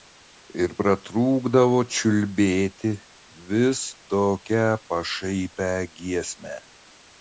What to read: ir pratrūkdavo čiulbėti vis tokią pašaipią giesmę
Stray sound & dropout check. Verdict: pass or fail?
pass